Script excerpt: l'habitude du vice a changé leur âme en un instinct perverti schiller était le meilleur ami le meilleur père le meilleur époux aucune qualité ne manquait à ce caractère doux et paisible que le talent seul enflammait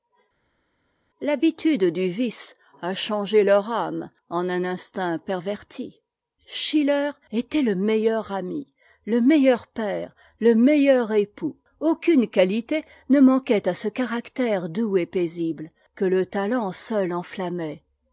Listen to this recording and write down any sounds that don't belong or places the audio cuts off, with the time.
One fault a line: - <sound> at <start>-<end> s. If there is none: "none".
none